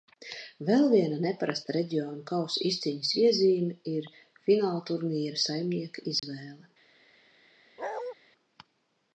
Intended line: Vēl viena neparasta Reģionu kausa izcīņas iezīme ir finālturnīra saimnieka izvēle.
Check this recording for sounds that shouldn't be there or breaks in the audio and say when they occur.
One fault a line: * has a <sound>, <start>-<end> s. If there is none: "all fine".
* has a dropout, 6.2-6.2 s
* has a bark, 7.8-8.1 s